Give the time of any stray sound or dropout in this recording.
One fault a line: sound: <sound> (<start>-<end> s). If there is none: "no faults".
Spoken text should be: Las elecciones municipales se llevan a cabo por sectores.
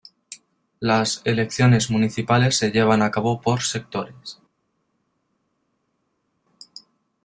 no faults